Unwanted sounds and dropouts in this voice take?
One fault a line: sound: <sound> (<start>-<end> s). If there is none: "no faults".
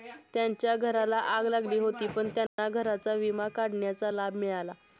sound: dropout (2.5-2.6 s)